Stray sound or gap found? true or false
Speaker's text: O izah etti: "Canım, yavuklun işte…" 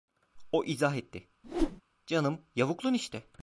true